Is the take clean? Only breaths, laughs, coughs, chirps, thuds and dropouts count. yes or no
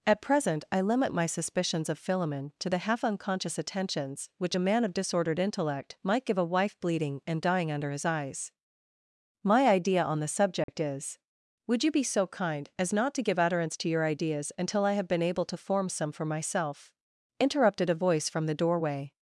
no